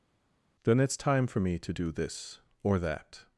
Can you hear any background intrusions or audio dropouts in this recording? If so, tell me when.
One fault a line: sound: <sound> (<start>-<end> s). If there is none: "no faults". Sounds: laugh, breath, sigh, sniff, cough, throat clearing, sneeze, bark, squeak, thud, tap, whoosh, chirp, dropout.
no faults